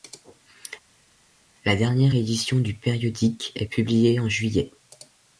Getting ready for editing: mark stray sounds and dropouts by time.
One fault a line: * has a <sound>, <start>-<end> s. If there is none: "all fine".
all fine